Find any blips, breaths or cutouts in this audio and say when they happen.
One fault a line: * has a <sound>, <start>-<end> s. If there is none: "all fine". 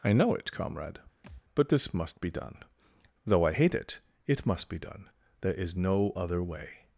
* has a thud, 1.2-1.4 s